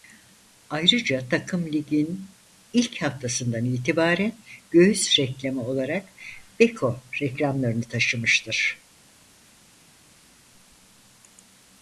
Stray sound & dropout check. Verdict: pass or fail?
pass